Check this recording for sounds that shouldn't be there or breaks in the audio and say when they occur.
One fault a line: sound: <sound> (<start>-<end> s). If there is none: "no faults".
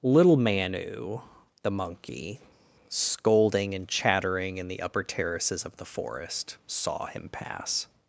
no faults